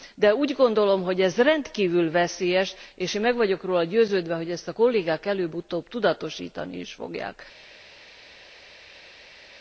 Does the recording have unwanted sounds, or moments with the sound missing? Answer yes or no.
no